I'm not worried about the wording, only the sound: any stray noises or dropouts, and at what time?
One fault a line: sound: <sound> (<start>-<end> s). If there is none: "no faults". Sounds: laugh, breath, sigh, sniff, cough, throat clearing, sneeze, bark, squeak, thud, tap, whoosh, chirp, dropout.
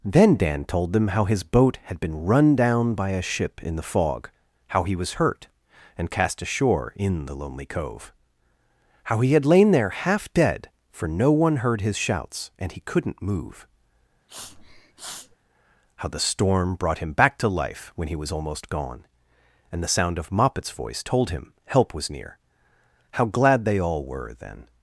sound: sniff (14.3-15.4 s)